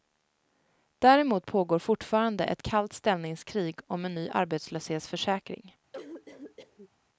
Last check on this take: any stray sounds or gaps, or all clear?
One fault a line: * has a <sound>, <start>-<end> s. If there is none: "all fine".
* has a cough, 5.9-6.9 s